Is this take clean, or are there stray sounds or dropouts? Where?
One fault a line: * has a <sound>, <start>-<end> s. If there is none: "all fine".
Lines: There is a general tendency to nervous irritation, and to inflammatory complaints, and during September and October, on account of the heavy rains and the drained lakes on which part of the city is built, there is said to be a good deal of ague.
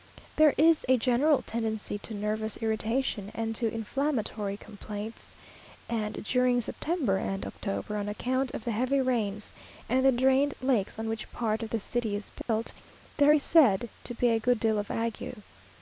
* has a dropout, 12.4-12.5 s